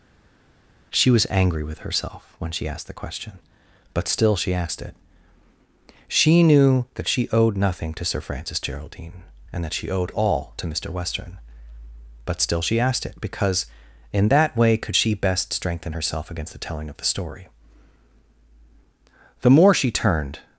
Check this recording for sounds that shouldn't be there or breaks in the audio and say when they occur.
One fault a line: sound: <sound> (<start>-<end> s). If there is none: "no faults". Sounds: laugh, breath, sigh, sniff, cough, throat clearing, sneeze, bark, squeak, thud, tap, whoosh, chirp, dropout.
no faults